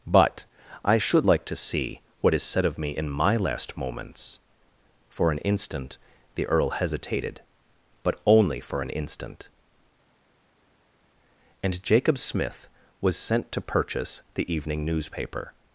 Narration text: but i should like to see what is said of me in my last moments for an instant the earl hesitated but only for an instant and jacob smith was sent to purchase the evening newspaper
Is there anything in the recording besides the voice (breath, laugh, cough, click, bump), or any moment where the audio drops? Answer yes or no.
no